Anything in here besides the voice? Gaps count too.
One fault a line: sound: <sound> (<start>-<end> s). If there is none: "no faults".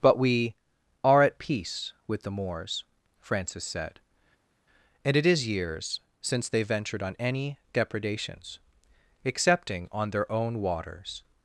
no faults